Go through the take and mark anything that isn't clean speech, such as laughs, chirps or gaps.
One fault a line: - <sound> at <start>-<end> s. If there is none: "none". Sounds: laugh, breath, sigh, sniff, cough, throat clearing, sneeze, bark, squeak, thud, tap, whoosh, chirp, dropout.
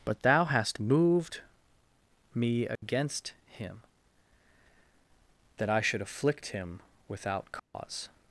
- dropout at 2.8-2.8 s
- dropout at 7.6-7.7 s